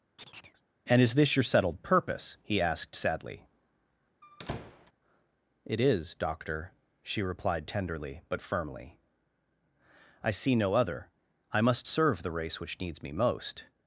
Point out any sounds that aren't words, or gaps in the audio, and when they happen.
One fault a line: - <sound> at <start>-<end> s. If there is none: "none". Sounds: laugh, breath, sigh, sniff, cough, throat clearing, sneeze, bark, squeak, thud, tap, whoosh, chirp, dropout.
- chirp at 0.2-0.6 s
- squeak at 4.2-4.9 s